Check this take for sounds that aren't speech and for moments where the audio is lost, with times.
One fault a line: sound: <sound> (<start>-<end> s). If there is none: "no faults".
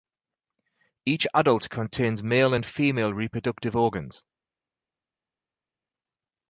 no faults